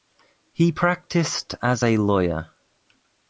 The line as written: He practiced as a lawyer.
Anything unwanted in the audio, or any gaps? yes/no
no